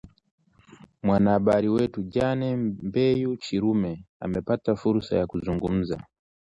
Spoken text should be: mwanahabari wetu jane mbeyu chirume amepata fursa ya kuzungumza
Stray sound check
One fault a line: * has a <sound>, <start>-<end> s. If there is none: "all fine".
all fine